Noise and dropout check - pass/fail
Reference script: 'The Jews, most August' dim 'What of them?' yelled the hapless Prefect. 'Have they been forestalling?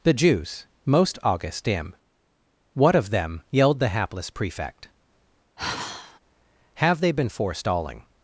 fail